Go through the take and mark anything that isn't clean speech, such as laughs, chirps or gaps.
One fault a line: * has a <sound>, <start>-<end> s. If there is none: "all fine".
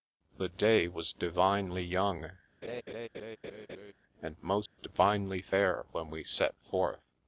* has a laugh, 2.6-3.9 s
* has a dropout, 4.7-4.8 s